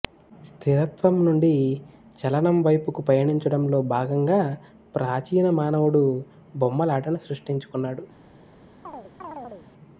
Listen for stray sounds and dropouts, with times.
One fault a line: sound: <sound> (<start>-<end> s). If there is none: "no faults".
sound: chirp (8.8-9.7 s)